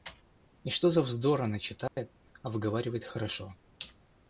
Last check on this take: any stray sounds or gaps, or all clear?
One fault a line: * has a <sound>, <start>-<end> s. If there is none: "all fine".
* has a dropout, 1.9-2.0 s